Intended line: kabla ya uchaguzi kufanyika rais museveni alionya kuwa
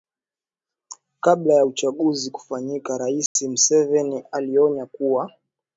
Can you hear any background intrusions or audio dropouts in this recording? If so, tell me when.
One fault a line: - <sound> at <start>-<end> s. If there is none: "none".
- dropout at 3.3-3.4 s